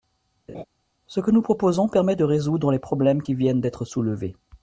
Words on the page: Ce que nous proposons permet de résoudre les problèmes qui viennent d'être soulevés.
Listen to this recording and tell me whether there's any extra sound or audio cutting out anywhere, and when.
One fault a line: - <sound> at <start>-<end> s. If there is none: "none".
- laugh at 0.5-0.6 s